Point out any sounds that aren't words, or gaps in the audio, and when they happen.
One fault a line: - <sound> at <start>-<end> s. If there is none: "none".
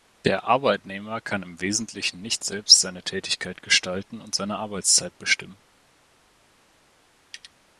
none